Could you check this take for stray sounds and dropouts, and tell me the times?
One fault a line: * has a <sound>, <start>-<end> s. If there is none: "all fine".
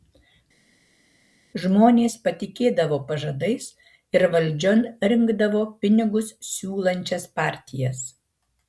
all fine